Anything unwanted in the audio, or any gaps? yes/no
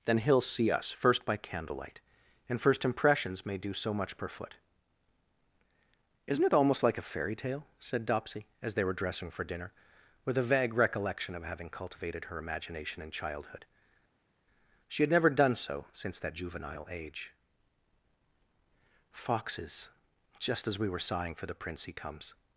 no